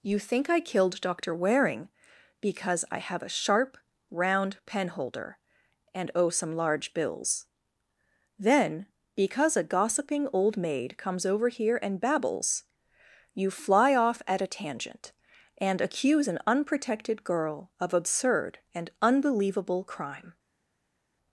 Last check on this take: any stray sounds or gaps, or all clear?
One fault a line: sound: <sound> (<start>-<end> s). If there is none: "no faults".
no faults